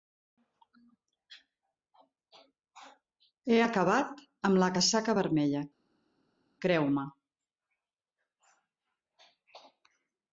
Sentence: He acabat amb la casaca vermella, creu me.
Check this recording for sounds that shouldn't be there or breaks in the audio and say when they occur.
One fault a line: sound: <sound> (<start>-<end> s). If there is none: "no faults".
no faults